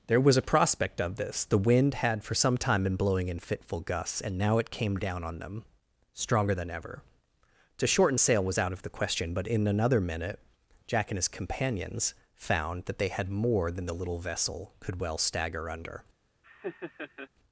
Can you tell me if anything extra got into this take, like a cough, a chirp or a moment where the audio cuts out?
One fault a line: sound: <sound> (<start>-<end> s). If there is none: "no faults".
sound: laugh (16.4-17.3 s)